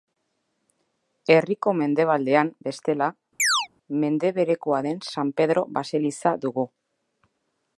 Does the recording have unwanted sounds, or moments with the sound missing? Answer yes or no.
yes